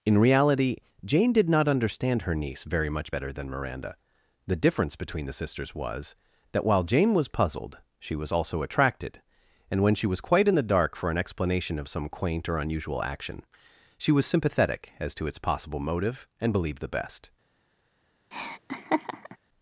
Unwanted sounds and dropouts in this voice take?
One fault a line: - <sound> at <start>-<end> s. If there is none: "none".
- laugh at 18.3-19.4 s